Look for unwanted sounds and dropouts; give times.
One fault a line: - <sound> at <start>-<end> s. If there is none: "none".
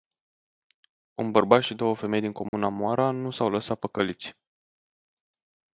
- dropout at 2.5-2.5 s